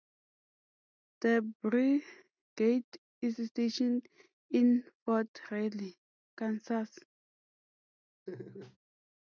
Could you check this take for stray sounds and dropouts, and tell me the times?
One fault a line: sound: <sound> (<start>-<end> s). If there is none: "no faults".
sound: laugh (8.3-8.8 s)